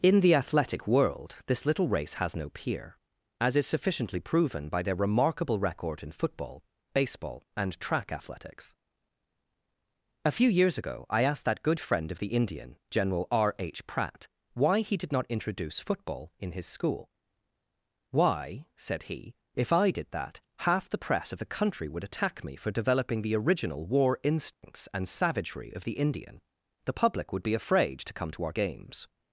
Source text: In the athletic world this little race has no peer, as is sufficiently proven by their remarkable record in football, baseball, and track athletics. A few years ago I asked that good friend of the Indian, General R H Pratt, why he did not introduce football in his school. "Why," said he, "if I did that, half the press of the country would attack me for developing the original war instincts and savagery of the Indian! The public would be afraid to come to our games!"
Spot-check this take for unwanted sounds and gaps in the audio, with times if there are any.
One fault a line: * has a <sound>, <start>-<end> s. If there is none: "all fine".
* has a dropout, 24.5-24.6 s